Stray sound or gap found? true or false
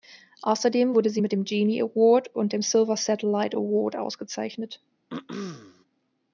true